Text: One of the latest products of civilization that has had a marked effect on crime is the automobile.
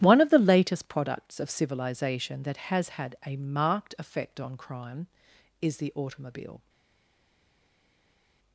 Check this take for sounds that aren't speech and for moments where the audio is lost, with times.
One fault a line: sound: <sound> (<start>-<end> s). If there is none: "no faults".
no faults